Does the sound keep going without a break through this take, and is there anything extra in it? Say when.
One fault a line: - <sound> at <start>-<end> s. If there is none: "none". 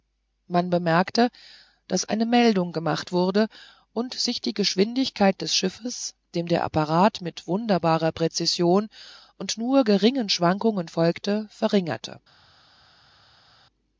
none